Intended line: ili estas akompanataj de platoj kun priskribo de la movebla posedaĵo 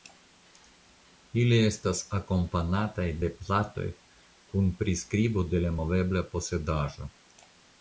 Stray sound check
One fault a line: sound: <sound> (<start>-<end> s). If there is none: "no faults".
no faults